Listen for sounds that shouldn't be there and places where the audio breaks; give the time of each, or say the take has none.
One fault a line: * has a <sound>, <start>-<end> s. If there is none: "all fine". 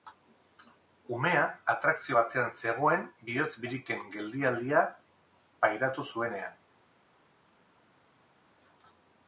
all fine